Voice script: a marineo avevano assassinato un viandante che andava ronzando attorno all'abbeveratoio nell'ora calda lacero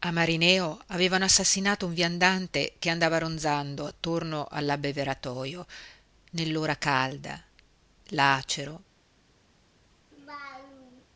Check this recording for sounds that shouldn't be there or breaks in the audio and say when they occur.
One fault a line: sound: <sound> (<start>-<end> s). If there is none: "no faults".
sound: laugh (10.1-11.1 s)